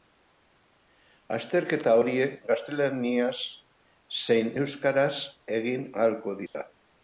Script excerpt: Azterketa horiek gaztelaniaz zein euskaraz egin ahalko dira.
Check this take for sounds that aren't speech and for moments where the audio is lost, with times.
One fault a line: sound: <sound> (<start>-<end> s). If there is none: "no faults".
sound: dropout (6.5-6.5 s)